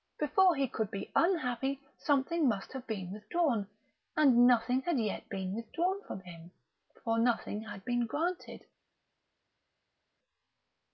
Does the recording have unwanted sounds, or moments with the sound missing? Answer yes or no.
no